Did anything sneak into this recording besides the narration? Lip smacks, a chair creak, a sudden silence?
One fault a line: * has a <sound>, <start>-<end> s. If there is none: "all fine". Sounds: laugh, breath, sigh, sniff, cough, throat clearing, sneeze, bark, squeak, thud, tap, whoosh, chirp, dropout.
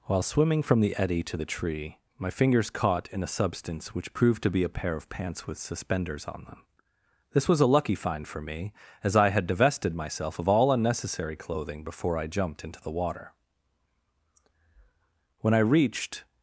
all fine